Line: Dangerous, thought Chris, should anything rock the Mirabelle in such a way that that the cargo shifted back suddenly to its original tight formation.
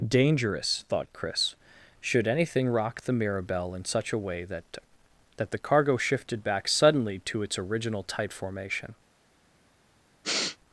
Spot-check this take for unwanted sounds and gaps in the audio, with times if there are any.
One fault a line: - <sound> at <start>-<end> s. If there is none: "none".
- sniff at 10.2-10.6 s